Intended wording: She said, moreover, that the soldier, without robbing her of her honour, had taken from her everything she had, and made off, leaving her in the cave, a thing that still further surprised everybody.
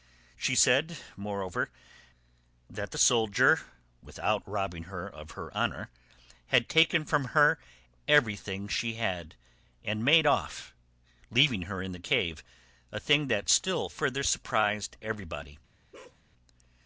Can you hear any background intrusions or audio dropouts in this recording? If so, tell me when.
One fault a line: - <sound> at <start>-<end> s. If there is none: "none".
- bark at 15.9-16.2 s